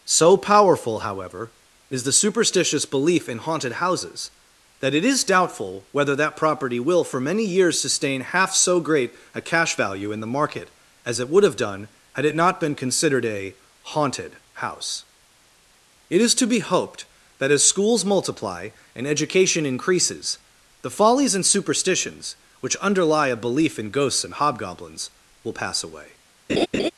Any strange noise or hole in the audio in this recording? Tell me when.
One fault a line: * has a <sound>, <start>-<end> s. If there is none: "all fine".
* has a laugh, 26.5-26.9 s